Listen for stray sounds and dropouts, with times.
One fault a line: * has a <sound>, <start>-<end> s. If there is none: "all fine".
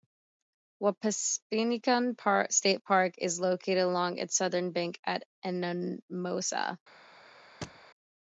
* has a thud, 7.6-7.9 s